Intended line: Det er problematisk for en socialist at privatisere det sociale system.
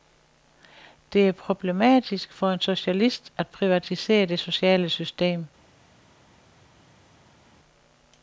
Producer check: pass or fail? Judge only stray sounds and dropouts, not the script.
pass